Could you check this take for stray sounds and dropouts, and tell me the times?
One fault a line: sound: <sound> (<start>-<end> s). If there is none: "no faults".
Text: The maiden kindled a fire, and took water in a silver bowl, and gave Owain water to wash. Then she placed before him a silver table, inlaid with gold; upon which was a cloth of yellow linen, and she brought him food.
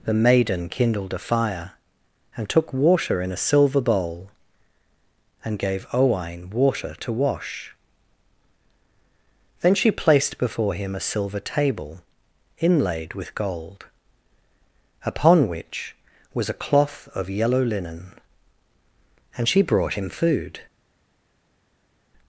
no faults